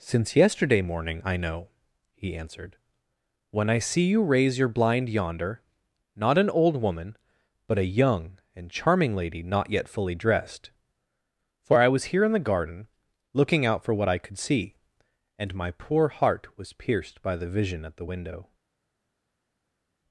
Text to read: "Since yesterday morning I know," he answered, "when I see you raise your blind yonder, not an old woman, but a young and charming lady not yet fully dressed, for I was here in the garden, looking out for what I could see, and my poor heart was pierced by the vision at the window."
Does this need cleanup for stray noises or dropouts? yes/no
no